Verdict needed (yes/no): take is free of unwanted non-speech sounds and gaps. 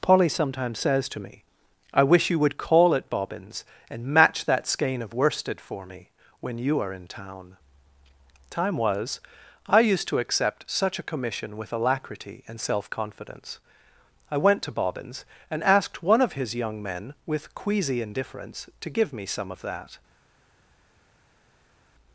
yes